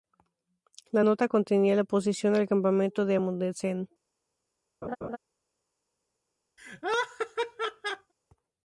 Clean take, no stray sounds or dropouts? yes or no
no